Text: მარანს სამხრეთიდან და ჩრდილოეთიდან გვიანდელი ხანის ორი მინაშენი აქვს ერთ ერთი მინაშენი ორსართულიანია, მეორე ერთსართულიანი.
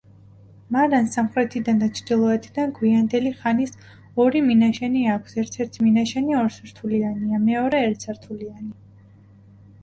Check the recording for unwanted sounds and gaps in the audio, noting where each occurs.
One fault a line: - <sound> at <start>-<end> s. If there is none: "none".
none